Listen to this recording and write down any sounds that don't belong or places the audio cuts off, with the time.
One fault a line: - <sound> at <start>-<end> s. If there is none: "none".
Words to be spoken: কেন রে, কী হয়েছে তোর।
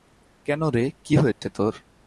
- dropout at 1.3-1.4 s